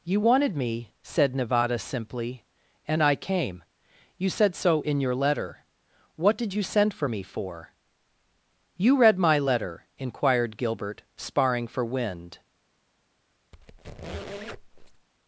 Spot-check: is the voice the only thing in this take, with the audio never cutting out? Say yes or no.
no